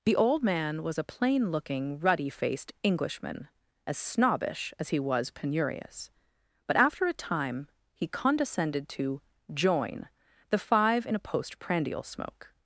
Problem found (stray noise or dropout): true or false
false